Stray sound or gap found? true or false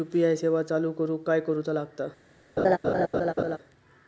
true